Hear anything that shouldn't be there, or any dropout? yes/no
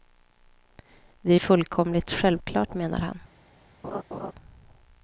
yes